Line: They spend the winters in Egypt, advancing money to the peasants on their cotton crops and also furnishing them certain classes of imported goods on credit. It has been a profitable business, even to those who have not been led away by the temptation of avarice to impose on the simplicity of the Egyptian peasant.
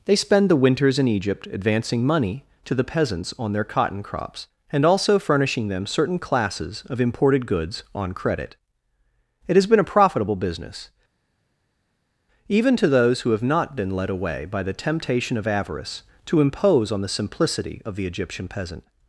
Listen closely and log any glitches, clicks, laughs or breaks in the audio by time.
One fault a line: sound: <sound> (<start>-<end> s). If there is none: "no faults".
no faults